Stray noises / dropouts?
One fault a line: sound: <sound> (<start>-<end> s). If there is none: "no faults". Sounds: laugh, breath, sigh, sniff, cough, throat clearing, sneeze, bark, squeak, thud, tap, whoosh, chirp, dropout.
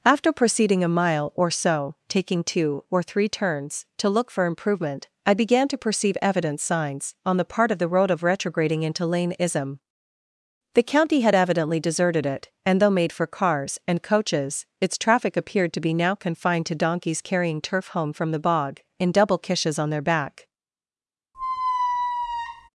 sound: squeak (21.3-22.7 s)